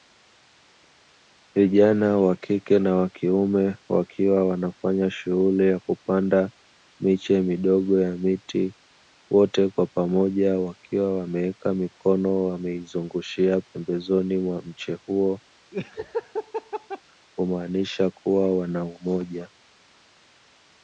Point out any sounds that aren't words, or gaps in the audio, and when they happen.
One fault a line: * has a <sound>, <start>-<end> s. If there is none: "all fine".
* has a laugh, 15.7-17.0 s